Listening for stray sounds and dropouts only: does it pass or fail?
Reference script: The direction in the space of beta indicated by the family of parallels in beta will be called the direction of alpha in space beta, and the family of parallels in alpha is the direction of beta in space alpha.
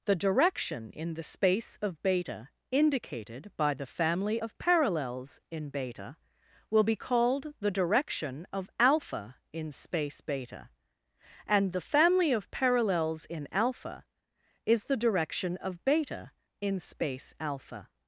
pass